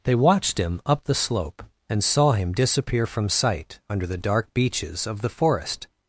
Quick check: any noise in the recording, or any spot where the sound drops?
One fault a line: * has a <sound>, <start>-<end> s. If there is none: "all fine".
all fine